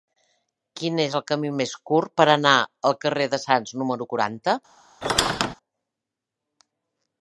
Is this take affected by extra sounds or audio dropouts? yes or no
yes